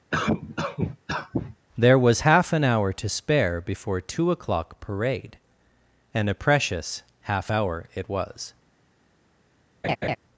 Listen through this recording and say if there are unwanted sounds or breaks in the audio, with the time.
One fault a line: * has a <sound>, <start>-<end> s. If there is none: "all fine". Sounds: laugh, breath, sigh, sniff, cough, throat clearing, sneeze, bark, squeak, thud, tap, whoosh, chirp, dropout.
* has a cough, 0.1-1.6 s
* has a laugh, 9.8-10.2 s